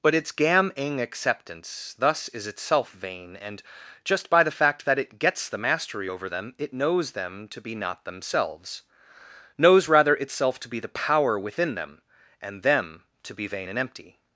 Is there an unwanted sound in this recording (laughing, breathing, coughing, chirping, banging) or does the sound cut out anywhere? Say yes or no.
no